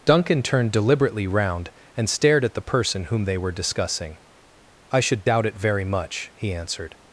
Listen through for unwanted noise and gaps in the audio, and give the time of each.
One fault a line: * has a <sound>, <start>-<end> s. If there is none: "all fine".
all fine